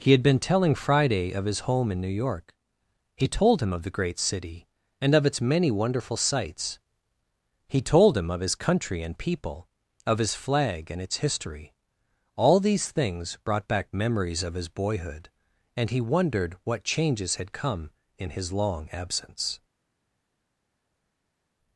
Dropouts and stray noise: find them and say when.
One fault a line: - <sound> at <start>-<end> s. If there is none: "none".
none